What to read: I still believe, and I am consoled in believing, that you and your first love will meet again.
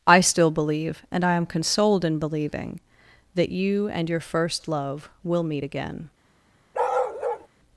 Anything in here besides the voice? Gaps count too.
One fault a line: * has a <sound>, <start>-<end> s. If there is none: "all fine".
* has a bark, 6.7-7.5 s